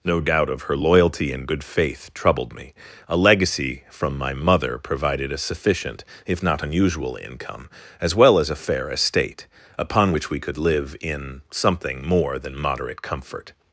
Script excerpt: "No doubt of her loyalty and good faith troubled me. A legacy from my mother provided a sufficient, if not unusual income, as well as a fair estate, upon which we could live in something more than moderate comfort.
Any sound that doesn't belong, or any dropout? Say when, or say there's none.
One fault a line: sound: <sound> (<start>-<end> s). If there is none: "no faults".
no faults